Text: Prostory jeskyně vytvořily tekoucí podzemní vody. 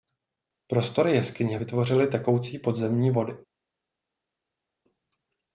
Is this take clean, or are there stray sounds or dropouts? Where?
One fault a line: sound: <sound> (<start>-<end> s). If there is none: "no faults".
no faults